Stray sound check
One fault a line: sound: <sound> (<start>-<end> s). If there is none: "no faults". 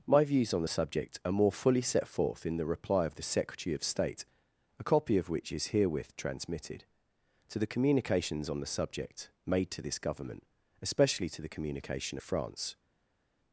no faults